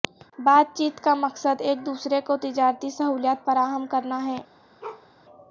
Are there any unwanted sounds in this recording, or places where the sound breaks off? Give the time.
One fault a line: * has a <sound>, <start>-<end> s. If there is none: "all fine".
* has a bark, 4.8-5.1 s